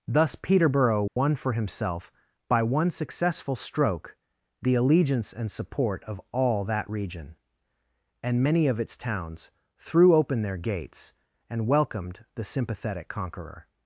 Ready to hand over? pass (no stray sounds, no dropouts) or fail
fail